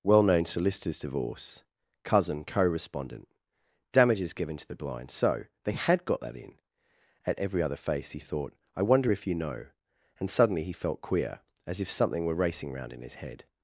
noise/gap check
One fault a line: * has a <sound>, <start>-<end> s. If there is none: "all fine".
all fine